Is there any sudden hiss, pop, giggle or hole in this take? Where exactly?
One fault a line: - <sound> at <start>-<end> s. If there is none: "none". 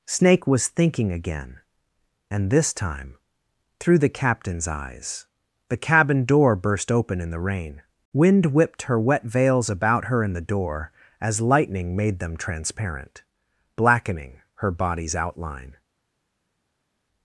none